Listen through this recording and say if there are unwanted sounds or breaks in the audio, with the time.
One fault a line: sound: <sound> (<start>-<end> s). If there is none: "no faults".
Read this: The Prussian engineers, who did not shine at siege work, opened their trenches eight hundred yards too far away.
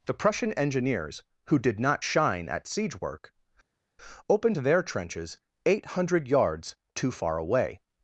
no faults